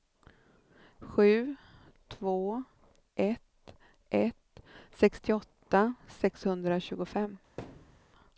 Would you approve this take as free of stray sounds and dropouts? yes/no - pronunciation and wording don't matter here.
no